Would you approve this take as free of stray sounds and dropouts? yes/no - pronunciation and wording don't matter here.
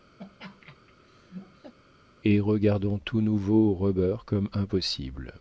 no